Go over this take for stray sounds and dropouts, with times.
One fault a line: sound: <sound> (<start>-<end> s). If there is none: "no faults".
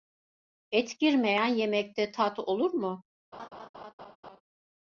sound: laugh (3.3-4.4 s)